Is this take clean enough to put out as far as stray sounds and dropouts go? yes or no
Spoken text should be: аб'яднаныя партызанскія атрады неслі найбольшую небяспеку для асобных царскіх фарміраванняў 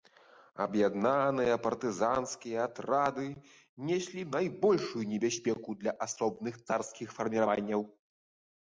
yes